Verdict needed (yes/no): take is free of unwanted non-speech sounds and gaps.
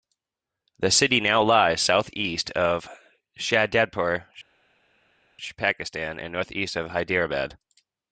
yes